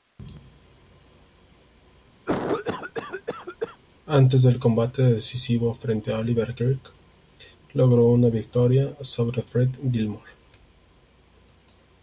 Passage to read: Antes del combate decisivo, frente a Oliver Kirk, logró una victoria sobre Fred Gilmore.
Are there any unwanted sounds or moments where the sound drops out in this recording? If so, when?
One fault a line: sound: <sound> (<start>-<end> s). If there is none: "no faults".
sound: cough (2.3-3.8 s)